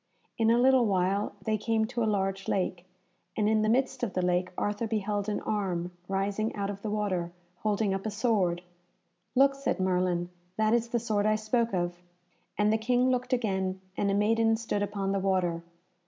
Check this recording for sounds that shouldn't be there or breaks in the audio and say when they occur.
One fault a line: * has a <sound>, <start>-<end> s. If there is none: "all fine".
all fine